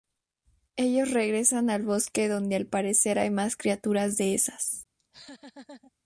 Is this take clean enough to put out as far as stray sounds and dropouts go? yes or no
no